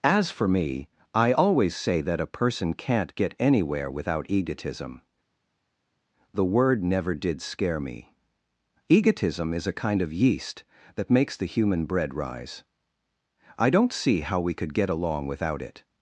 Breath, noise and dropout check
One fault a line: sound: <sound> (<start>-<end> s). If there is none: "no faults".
no faults